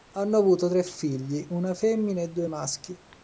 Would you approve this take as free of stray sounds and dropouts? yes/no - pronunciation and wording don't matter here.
yes